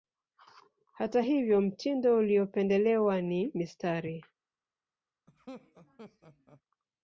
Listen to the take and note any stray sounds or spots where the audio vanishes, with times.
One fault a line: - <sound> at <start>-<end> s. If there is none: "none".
- laugh at 5.3-6.6 s